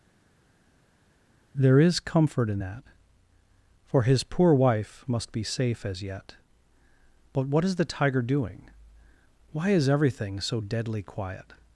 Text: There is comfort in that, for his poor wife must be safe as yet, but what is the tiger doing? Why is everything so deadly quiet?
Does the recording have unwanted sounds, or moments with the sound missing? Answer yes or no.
no